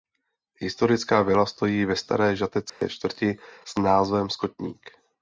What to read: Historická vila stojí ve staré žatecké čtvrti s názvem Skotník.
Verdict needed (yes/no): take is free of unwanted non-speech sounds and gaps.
no